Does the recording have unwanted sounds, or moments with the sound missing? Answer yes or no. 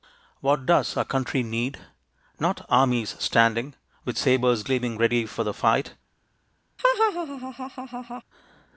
yes